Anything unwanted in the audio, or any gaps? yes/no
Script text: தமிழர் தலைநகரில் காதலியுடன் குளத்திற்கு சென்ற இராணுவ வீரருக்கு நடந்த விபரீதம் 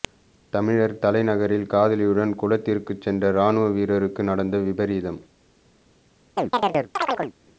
yes